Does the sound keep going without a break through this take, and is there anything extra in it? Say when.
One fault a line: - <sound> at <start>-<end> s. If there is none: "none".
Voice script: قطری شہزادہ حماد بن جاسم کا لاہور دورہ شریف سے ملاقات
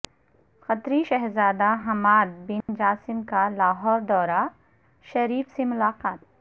- dropout at 2.6-2.7 s